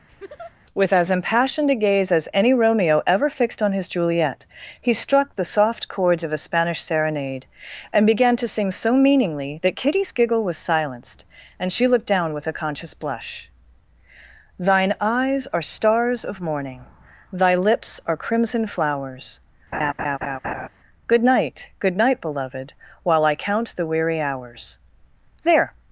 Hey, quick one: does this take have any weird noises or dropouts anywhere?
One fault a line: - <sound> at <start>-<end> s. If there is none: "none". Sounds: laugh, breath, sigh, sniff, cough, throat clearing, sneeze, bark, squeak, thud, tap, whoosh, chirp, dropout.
- laugh at 0.1-0.6 s
- laugh at 19.7-20.7 s